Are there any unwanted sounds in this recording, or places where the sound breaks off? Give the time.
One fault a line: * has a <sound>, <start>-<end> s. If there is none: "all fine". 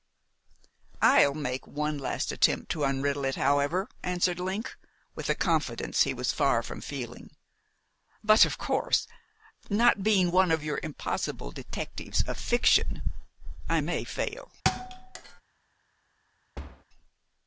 * has a thud, 14.6-15.4 s
* has a thud, 16.5-16.8 s